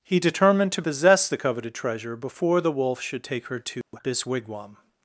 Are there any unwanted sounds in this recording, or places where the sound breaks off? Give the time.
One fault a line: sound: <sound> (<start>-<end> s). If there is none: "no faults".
sound: dropout (3.8-3.9 s)